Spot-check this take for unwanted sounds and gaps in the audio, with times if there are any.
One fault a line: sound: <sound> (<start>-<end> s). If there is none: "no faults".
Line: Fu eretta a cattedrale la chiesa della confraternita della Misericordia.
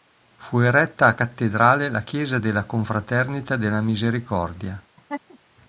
sound: laugh (5.0-5.4 s)